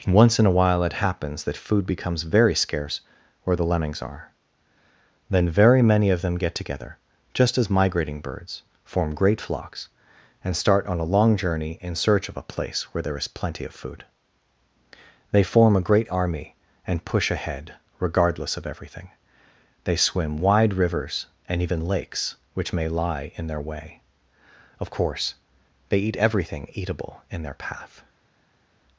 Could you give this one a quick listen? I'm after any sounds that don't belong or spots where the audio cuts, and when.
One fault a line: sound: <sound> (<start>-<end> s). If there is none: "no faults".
no faults